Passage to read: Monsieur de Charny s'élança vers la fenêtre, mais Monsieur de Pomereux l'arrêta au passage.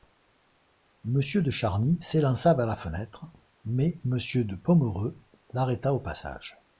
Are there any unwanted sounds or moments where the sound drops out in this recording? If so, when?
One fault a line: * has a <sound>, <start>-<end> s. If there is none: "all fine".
all fine